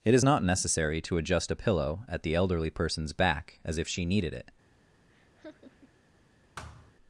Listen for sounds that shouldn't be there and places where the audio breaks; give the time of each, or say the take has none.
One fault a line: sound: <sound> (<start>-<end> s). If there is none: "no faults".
sound: laugh (5.1-6.0 s)
sound: thud (6.6-6.9 s)